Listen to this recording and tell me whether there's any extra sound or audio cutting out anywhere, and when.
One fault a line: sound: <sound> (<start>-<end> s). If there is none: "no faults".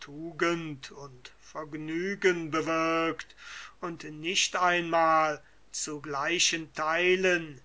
no faults